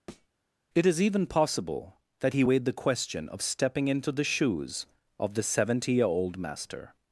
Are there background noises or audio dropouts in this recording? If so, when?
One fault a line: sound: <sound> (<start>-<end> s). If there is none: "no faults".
sound: thud (0.1-0.3 s)